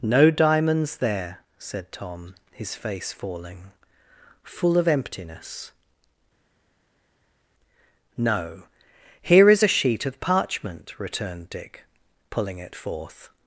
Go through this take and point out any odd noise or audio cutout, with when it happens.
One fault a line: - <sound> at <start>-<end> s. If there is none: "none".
none